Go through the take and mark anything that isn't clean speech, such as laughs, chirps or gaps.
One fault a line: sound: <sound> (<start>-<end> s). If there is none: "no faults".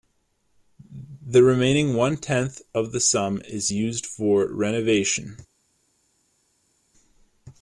no faults